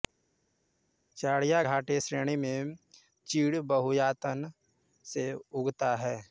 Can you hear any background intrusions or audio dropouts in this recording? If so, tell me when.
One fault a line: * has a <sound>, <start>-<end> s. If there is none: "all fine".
all fine